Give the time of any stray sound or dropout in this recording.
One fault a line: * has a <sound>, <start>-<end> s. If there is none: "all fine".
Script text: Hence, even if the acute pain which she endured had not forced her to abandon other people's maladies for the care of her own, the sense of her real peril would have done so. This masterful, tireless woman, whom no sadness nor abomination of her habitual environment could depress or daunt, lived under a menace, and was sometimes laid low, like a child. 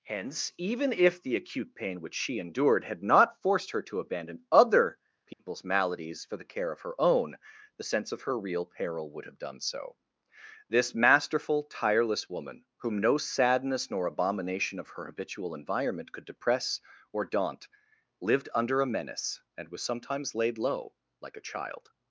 * has a dropout, 5.3-5.4 s